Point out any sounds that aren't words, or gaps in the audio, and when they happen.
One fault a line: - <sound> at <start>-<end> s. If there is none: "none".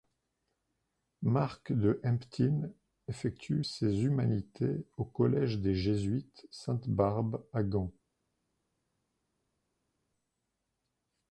none